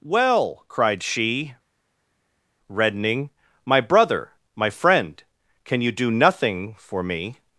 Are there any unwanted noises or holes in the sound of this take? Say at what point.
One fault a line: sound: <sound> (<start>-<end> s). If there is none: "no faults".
no faults